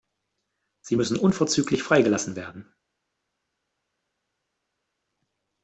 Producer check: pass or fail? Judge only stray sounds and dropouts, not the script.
pass